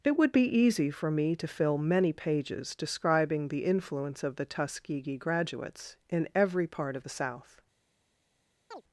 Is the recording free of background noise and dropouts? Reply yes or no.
no